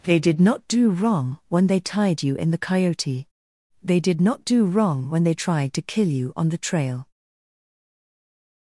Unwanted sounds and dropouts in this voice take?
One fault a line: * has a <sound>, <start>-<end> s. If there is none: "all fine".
all fine